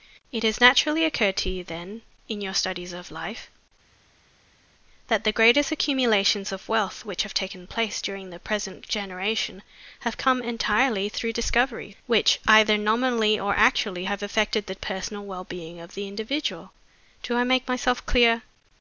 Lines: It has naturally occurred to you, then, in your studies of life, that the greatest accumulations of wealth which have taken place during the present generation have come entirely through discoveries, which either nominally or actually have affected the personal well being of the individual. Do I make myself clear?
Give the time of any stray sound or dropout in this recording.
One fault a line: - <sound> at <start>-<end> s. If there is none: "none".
none